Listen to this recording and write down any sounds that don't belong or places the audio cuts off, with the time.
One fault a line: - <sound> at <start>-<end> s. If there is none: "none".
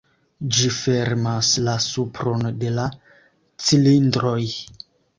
none